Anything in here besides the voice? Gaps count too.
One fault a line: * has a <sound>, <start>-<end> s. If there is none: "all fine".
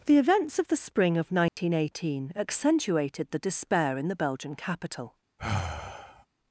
* has a dropout, 1.5-1.6 s
* has a sigh, 5.4-6.3 s